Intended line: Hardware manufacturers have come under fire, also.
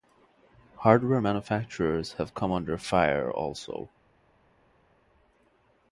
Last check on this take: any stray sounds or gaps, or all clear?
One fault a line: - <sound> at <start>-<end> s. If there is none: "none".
none